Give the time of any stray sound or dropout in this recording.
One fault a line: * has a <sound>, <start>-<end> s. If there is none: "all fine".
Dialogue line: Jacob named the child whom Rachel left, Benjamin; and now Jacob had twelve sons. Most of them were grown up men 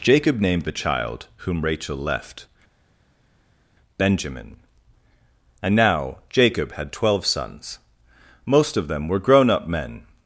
all fine